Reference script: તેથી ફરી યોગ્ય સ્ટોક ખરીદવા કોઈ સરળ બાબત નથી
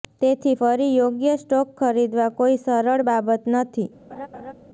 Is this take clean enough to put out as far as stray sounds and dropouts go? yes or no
no